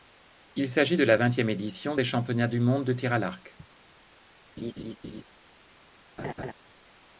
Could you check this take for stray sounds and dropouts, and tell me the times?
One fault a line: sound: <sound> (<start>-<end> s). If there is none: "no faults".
sound: laugh (4.6-5.2 s)
sound: laugh (6.2-6.5 s)